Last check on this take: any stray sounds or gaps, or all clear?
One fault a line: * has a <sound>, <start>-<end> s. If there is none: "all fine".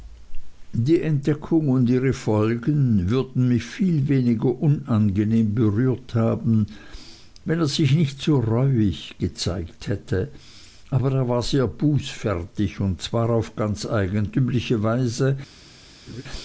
* has a laugh, 16.1-16.2 s